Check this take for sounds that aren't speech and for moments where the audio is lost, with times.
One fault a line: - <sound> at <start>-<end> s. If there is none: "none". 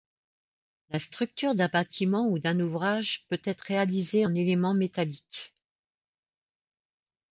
none